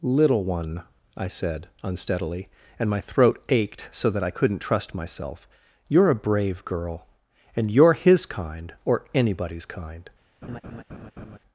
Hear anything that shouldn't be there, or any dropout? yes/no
yes